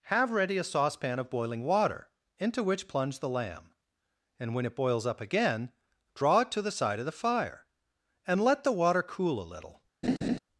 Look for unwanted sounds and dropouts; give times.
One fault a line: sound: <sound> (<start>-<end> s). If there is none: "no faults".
sound: laugh (10.0-10.4 s)